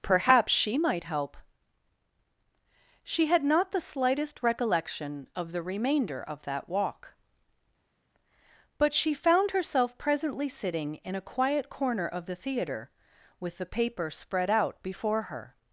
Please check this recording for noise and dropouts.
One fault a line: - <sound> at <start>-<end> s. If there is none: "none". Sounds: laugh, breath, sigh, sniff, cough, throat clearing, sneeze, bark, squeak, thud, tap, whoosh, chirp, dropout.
none